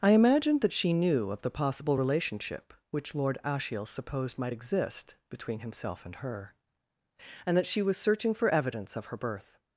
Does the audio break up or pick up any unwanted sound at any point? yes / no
no